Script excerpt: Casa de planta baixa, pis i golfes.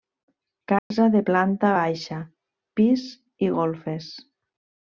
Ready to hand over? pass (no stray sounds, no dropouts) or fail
fail